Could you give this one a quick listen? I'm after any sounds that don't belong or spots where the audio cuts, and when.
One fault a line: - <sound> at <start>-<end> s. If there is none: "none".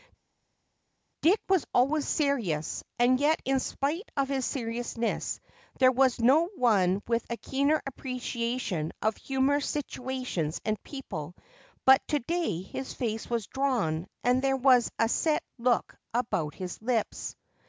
none